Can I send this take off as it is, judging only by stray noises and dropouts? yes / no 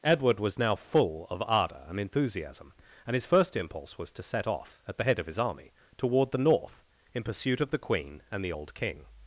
yes